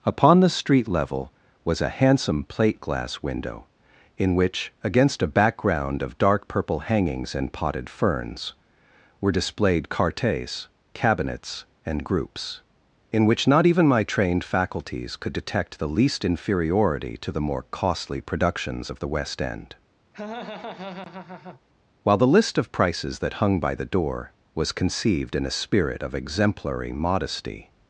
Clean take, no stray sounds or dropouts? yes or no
no